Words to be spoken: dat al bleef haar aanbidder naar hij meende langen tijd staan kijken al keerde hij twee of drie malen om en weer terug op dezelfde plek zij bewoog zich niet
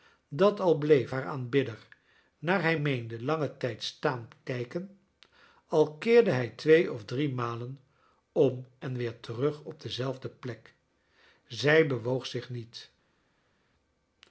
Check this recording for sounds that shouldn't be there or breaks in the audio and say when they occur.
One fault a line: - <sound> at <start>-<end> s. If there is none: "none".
none